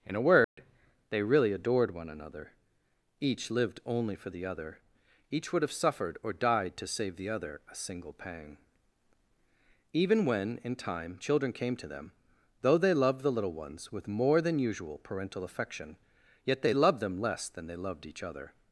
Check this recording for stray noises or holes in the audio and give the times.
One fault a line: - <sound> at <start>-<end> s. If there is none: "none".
- dropout at 0.4-0.6 s